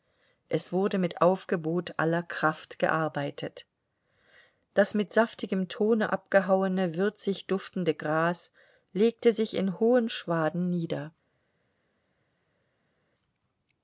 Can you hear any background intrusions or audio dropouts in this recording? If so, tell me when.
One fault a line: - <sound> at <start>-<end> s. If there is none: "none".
none